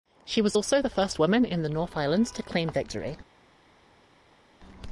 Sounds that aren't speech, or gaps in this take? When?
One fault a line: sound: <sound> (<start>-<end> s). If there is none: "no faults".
no faults